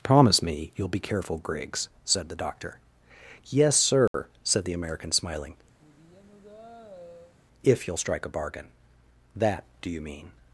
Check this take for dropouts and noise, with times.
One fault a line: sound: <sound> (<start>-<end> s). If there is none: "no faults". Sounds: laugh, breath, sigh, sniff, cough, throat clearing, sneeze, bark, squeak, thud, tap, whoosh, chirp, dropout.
sound: dropout (4.1-4.1 s)
sound: sigh (5.8-7.3 s)